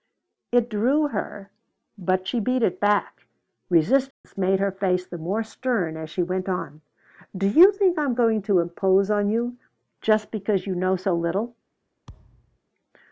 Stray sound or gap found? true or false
true